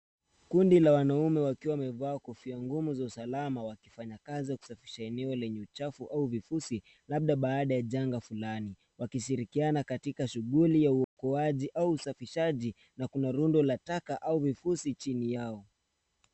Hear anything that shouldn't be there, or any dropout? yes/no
yes